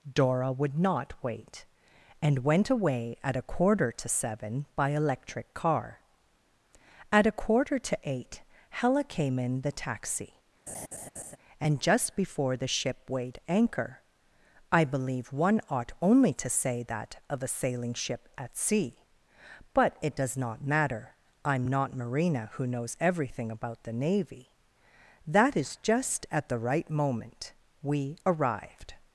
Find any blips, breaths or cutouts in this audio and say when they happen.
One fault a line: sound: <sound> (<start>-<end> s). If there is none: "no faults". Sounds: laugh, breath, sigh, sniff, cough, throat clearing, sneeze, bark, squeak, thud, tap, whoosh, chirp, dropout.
sound: laugh (10.7-11.4 s)